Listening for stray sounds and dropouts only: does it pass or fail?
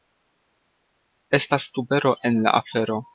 pass